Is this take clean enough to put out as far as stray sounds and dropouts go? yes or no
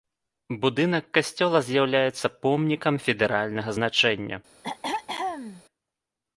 no